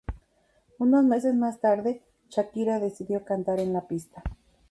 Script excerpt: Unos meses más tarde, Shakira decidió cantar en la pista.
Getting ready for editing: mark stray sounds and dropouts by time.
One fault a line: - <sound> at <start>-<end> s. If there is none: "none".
none